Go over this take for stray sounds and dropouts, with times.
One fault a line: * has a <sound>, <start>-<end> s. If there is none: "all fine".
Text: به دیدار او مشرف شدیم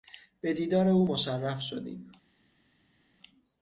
all fine